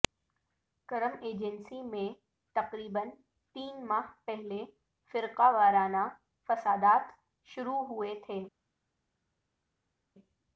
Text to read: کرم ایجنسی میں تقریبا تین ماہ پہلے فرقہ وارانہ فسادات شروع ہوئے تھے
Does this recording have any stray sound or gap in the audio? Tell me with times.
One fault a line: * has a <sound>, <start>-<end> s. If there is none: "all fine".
all fine